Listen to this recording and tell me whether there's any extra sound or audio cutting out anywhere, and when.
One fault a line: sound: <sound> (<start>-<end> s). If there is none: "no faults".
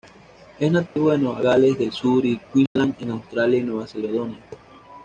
sound: dropout (0.9-1.0 s)
sound: dropout (2.7-2.8 s)